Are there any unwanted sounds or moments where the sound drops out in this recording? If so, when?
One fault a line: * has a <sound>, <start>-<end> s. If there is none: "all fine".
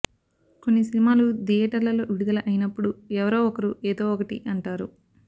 all fine